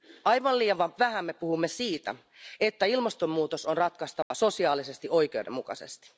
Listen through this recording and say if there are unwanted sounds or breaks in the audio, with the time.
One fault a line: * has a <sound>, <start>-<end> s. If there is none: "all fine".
* has a dropout, 4.2-4.3 s